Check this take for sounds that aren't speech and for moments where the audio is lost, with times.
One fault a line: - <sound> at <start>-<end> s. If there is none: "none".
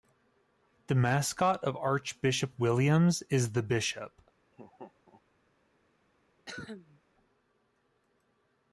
- laugh at 4.5-5.2 s
- cough at 6.5-7.0 s